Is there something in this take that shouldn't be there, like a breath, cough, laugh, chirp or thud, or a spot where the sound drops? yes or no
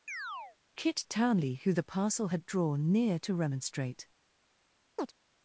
yes